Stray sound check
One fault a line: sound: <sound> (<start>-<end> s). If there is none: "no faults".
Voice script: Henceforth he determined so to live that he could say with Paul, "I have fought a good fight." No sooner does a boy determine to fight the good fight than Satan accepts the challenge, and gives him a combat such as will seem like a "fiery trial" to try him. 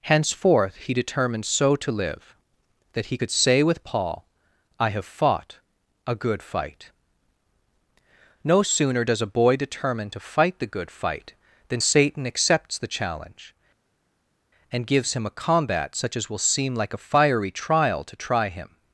no faults